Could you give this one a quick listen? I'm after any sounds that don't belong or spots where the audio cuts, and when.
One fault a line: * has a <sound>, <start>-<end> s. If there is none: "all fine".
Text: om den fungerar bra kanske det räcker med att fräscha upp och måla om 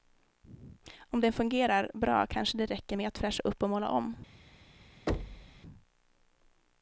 * has a thud, 5.1-5.6 s